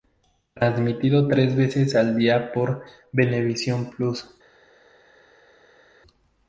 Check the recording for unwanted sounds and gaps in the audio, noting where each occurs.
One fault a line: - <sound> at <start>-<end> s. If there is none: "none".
none